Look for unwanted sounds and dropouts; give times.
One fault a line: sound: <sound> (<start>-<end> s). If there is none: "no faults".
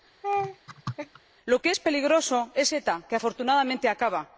sound: laugh (0.2-1.2 s)